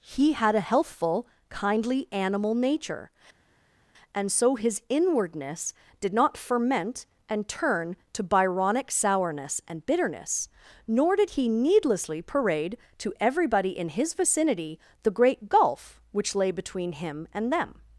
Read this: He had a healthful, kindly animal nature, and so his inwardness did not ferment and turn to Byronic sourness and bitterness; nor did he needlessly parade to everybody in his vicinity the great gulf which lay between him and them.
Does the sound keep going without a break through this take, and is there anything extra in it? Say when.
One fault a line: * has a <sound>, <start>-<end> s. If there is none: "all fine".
all fine